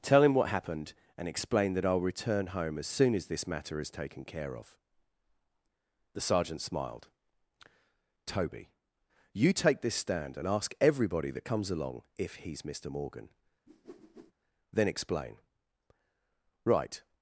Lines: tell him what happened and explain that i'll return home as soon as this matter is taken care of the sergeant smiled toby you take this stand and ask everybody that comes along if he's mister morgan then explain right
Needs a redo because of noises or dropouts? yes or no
yes